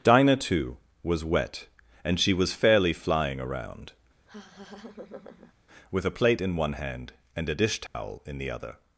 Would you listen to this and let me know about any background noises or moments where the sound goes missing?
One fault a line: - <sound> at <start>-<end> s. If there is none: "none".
- laugh at 4.3-5.5 s
- dropout at 7.9-7.9 s